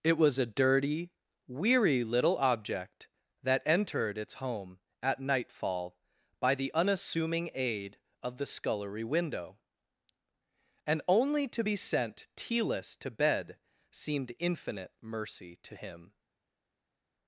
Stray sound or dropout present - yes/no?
no